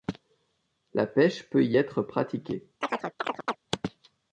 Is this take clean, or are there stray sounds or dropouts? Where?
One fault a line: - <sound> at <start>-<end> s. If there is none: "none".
- chirp at 2.8-3.6 s